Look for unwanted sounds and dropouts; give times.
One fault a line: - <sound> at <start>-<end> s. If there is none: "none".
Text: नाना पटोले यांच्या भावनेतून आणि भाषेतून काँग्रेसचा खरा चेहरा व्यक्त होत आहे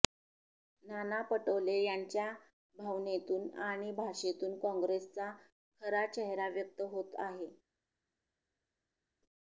none